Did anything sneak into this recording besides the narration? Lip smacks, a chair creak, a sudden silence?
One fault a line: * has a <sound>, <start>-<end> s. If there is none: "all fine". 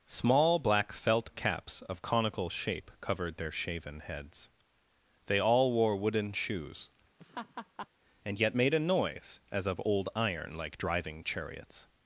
* has a laugh, 7.2-7.9 s